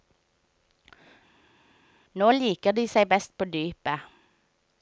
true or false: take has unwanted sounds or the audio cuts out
false